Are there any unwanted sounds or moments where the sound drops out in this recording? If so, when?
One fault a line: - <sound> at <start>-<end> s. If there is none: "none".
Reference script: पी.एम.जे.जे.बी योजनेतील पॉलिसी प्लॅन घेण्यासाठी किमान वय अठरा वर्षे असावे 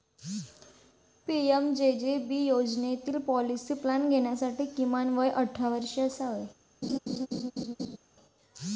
- laugh at 6.8-8.0 s